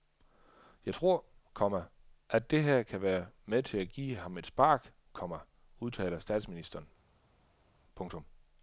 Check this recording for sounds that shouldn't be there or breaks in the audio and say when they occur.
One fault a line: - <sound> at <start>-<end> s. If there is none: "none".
none